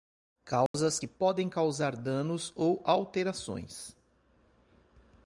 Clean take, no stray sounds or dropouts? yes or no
no